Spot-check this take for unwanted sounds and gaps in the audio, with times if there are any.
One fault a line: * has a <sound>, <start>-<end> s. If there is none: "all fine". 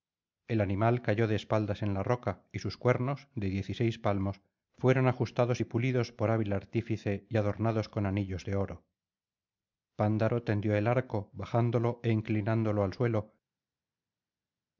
all fine